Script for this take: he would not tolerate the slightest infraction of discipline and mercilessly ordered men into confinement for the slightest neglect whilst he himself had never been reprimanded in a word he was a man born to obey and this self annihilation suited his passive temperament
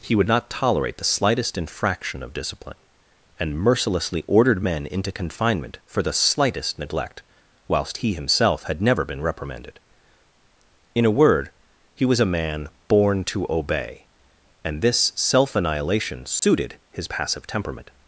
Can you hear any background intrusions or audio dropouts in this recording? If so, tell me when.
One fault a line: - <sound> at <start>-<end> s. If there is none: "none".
- dropout at 16.4-16.4 s